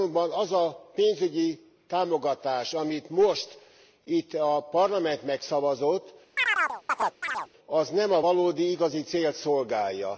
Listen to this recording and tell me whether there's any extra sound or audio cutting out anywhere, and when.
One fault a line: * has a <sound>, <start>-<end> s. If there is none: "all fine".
* has a chirp, 6.4-7.5 s